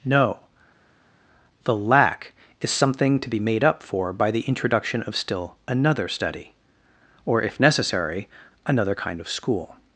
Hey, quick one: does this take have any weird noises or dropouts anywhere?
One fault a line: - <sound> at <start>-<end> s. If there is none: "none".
none